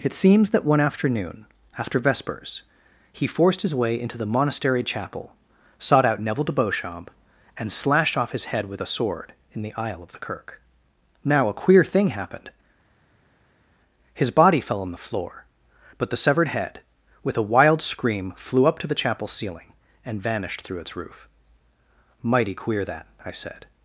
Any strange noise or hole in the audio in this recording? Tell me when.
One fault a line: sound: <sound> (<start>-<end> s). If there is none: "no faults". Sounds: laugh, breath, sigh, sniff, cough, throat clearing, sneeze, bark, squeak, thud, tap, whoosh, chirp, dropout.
no faults